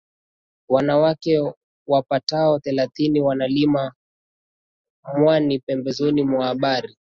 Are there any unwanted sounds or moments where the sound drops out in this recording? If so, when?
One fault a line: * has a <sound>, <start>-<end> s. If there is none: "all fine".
all fine